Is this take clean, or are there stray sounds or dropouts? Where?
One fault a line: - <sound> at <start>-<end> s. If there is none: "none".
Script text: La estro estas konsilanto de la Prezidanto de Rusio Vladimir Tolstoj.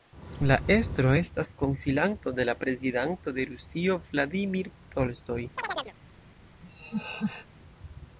- chirp at 5.6-5.9 s
- laugh at 6.6-7.5 s